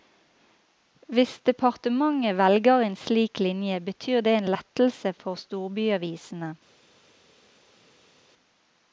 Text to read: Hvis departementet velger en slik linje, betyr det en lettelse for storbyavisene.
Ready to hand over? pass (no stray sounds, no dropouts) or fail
pass